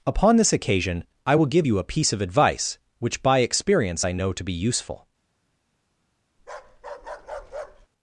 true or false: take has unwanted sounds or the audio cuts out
true